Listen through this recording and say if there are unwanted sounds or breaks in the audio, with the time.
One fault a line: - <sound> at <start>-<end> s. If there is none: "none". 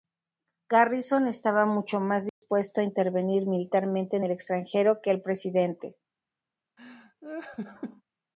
- dropout at 2.3-2.4 s
- laugh at 6.8-8.0 s